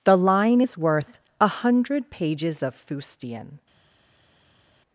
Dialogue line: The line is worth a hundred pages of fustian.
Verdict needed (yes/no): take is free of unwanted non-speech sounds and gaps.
yes